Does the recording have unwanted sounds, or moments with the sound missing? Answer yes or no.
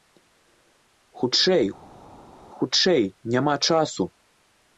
no